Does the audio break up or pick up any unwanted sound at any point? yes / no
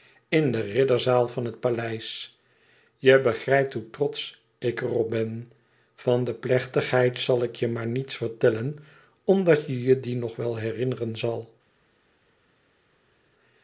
no